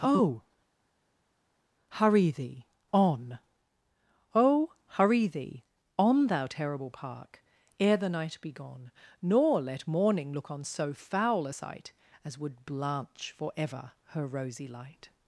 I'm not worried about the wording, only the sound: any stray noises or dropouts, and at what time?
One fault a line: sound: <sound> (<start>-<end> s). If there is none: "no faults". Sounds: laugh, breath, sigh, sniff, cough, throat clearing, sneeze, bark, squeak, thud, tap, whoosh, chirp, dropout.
no faults